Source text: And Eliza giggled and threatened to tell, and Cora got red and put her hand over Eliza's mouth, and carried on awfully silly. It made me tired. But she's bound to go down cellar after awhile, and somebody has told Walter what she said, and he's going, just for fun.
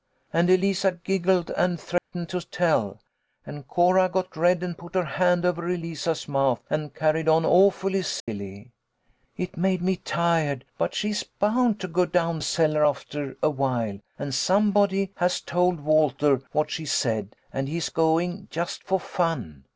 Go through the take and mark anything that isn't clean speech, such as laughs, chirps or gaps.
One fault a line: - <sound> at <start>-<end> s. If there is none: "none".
- dropout at 2.0-2.1 s
- dropout at 8.2-8.3 s